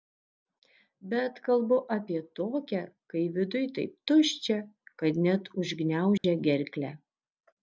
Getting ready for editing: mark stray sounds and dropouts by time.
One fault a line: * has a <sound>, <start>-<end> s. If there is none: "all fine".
* has a dropout, 6.2-6.2 s